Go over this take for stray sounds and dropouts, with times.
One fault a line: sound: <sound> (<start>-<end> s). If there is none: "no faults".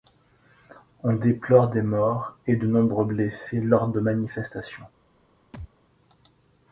sound: thud (5.5-5.7 s)